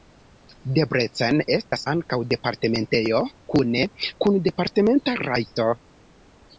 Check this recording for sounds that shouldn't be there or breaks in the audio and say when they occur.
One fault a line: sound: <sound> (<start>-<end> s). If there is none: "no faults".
sound: dropout (1.6-1.7 s)